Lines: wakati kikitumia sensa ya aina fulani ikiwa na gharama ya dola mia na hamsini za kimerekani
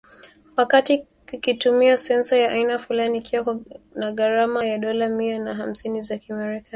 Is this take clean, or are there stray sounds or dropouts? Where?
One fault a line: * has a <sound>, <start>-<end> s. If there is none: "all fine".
all fine